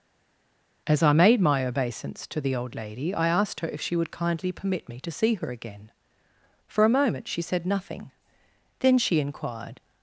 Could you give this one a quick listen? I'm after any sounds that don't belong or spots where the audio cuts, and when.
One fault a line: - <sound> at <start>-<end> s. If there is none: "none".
none